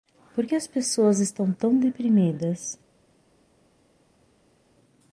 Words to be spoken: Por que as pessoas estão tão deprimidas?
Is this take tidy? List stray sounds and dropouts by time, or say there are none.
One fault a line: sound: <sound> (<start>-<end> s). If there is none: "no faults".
no faults